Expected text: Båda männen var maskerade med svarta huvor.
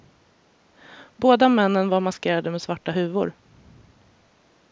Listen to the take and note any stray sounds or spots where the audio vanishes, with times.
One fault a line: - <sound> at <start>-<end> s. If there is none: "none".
none